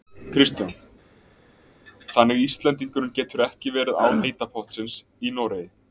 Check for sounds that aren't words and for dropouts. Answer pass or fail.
pass